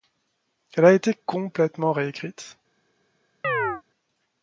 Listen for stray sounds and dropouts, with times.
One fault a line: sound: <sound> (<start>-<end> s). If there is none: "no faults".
sound: chirp (3.4-3.8 s)